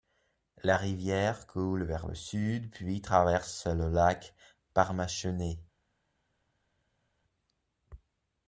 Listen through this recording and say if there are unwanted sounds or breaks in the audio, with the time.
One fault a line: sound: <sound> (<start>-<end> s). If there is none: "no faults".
no faults